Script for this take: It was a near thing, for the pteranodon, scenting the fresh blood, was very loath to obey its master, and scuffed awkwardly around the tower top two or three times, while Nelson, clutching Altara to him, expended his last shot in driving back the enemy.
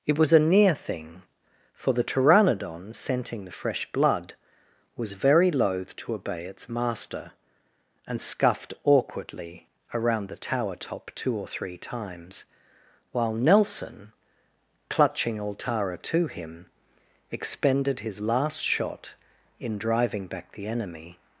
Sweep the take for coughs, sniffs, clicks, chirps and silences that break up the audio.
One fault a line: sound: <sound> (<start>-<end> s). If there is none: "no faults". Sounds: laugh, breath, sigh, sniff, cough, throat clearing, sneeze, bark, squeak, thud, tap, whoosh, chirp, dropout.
no faults